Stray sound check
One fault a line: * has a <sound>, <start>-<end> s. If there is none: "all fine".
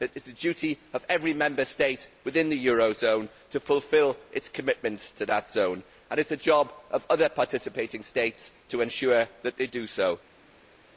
all fine